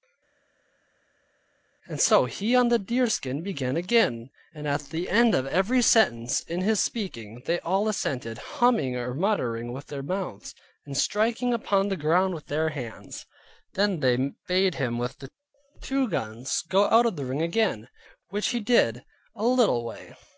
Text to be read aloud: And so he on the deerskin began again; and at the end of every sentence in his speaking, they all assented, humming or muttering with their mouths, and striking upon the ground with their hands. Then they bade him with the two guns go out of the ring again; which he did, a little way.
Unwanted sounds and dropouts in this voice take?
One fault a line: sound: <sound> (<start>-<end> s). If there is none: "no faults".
no faults